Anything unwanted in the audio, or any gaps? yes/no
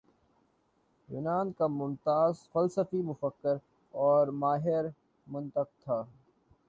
no